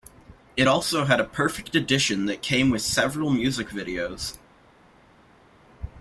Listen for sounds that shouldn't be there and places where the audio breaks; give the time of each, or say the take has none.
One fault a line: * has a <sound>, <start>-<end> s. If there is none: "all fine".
all fine